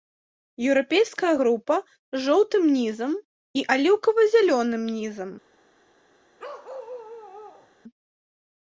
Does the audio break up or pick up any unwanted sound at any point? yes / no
yes